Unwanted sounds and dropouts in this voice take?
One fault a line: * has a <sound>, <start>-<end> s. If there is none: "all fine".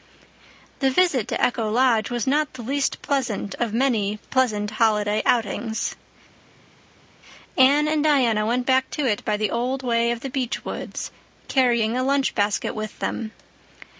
all fine